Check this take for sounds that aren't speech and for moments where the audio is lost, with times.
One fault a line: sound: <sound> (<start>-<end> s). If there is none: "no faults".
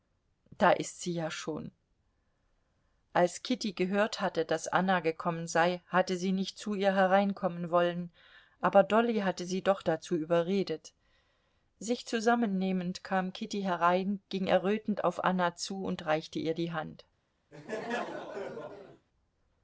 sound: laugh (17.5-19.1 s)